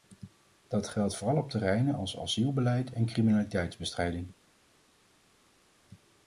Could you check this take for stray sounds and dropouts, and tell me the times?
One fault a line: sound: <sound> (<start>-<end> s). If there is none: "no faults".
no faults